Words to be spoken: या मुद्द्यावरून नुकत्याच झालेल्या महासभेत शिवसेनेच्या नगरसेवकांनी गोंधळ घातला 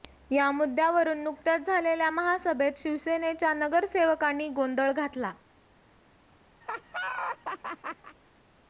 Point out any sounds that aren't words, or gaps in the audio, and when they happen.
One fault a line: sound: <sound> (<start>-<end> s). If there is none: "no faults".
sound: laugh (6.6-8.2 s)